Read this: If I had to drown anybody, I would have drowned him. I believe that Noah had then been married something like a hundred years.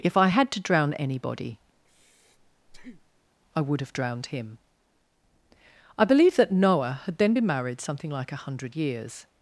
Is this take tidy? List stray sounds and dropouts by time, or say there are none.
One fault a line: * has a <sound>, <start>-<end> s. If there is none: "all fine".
* has a breath, 1.8-3.3 s